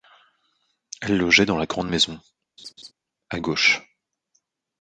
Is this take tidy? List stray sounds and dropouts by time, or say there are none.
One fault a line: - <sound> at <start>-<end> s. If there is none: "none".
- laugh at 2.6-2.9 s